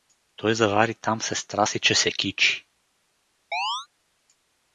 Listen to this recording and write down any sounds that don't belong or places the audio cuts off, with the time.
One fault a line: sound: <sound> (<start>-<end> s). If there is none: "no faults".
sound: chirp (3.5-3.9 s)